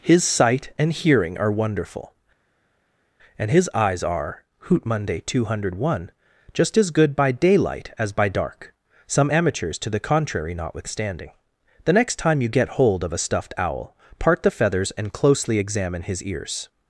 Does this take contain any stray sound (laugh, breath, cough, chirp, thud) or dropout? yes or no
no